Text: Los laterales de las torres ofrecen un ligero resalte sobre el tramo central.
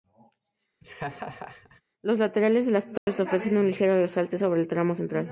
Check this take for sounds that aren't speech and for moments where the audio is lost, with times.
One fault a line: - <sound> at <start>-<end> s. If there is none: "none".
- laugh at 0.8-1.8 s
- dropout at 3.0-3.1 s